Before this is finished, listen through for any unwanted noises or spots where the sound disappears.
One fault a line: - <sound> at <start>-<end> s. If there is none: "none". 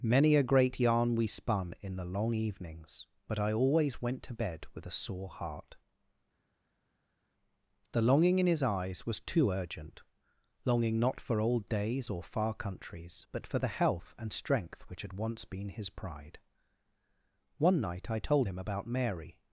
none